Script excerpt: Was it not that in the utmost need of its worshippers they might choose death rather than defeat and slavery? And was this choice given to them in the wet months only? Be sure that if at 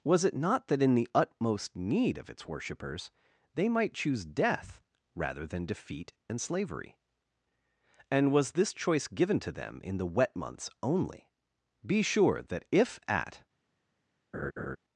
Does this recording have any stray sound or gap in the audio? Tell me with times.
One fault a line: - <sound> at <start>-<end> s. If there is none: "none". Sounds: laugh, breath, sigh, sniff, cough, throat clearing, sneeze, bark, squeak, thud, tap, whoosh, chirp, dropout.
- laugh at 14.3-14.8 s